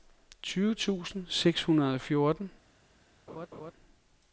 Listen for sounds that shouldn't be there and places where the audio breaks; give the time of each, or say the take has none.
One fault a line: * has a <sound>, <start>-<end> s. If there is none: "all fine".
* has a laugh, 3.3-3.7 s